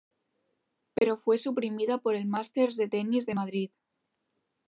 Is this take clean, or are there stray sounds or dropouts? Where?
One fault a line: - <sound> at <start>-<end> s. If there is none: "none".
- dropout at 1.0-1.0 s